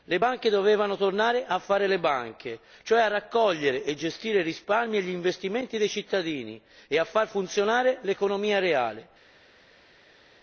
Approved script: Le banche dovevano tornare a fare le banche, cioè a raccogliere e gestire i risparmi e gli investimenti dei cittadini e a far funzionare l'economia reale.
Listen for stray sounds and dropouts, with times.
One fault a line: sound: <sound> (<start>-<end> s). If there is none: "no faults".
no faults